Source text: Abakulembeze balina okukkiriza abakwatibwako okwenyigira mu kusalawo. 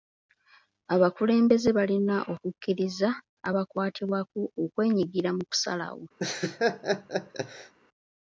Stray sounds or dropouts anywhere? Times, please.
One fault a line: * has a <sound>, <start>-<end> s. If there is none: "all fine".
* has a laugh, 6.2-7.7 s